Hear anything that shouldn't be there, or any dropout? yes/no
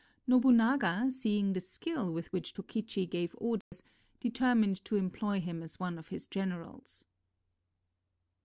yes